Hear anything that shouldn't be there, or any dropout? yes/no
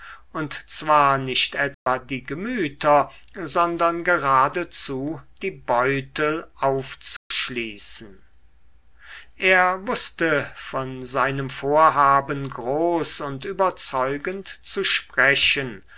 yes